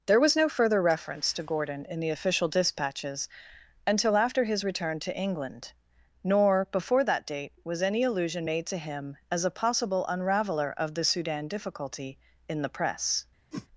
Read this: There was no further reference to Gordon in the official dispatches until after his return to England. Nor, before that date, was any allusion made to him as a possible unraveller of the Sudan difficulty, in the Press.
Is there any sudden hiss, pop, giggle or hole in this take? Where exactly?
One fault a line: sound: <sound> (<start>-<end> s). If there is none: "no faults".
sound: whoosh (13.5-13.7 s)